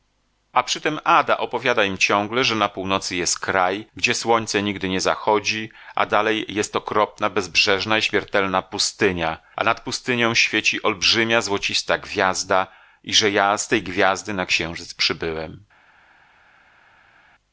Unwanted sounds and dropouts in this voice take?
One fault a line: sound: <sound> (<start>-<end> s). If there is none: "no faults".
no faults